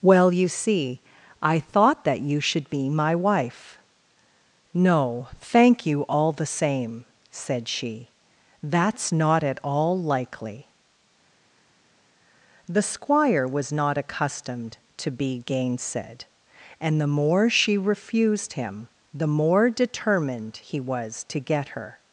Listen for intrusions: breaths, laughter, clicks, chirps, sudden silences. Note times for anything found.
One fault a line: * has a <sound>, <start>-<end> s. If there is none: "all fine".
all fine